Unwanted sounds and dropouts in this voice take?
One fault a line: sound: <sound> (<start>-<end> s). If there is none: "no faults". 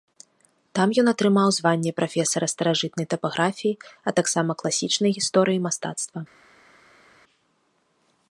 no faults